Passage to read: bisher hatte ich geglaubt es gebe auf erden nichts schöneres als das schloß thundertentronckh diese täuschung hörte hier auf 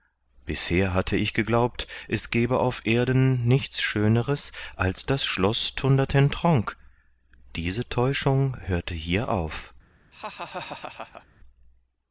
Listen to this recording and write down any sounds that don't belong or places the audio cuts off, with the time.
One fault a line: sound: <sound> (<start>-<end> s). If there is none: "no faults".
sound: laugh (10.1-11.3 s)